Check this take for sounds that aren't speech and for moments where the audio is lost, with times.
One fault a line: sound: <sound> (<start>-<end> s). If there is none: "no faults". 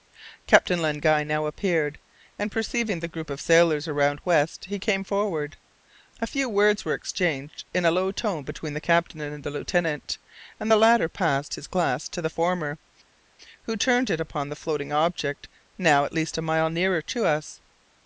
no faults